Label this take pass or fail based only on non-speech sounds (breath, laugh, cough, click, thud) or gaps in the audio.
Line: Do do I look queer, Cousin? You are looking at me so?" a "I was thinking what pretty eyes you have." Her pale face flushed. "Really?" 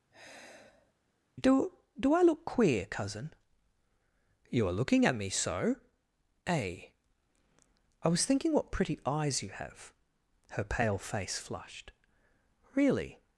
fail